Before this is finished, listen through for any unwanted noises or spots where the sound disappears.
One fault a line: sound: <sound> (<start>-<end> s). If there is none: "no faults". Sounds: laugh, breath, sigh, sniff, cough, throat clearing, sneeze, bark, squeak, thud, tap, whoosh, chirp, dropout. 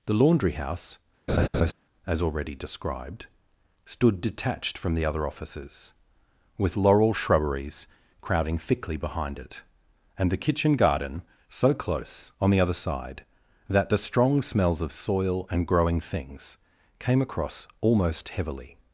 sound: laugh (1.3-1.7 s)